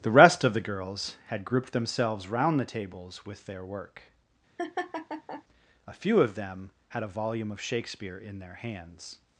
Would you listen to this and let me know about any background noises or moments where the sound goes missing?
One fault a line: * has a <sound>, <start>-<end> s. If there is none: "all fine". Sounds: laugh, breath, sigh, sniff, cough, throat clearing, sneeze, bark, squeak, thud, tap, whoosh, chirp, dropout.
* has a laugh, 4.6-5.4 s